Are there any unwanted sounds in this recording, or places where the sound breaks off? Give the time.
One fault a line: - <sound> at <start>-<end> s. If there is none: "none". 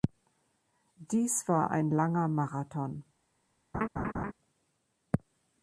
- laugh at 3.7-4.3 s